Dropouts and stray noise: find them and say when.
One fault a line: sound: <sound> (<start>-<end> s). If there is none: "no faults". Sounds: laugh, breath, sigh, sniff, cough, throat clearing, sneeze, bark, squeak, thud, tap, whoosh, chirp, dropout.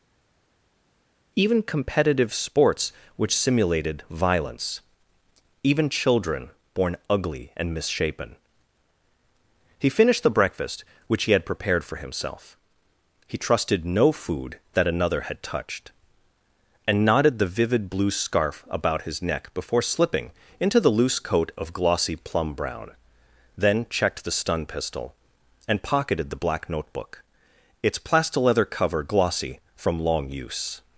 no faults